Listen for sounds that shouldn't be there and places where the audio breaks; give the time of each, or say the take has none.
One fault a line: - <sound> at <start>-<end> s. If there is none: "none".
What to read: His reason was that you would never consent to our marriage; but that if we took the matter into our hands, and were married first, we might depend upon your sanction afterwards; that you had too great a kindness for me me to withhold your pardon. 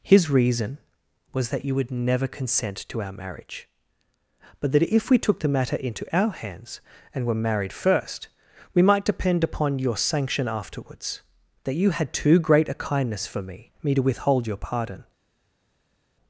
none